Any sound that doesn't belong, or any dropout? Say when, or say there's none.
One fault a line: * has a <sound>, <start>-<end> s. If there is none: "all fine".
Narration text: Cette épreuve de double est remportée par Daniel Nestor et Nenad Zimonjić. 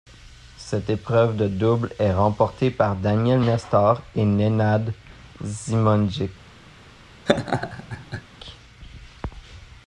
* has a laugh, 7.3-8.2 s